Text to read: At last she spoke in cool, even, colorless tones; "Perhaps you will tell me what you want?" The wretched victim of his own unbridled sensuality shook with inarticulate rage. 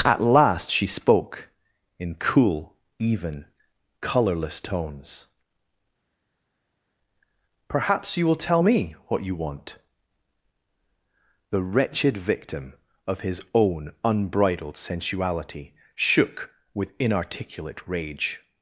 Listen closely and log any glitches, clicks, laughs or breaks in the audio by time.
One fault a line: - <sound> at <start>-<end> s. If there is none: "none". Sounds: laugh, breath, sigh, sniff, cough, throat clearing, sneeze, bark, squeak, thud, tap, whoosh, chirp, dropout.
none